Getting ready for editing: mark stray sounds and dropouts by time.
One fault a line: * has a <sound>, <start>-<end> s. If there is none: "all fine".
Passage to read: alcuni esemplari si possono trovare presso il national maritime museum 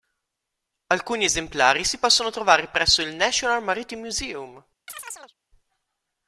* has a chirp, 4.9-5.3 s